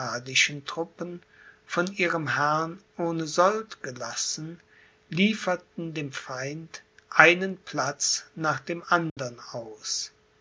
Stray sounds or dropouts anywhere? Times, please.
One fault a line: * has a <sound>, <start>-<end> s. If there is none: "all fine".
* has a dropout, 9.1-9.2 s